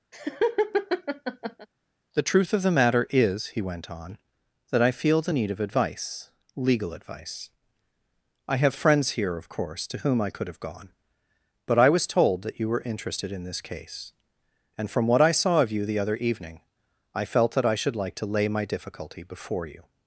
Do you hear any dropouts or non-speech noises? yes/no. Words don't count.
yes